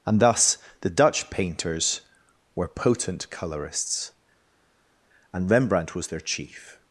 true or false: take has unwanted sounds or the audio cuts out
false